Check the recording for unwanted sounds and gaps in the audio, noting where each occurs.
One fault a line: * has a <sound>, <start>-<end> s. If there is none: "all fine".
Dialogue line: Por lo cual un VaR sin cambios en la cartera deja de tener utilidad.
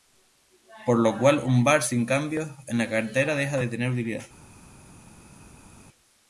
all fine